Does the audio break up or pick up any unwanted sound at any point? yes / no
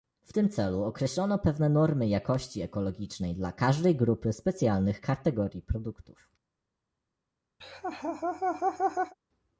yes